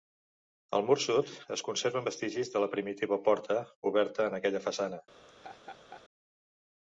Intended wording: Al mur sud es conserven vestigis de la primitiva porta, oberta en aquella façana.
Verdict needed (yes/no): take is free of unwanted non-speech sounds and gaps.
no